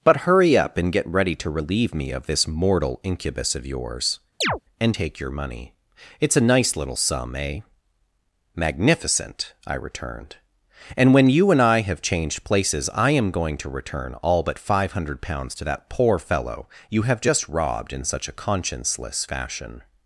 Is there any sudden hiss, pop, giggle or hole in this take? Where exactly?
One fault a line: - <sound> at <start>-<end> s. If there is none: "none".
- chirp at 4.4-4.6 s